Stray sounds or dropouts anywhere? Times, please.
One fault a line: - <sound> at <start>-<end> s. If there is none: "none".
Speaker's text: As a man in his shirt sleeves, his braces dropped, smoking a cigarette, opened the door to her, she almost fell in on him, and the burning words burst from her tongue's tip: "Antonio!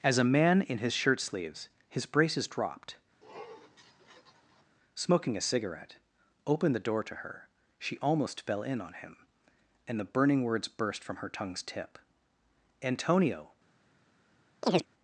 - sniff at 3.2-4.6 s
- chirp at 14.6-14.9 s